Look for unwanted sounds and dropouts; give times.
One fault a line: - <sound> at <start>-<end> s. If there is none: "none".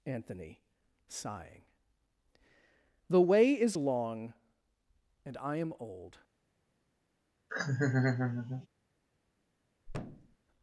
- laugh at 7.5-8.7 s
- thud at 9.9-10.4 s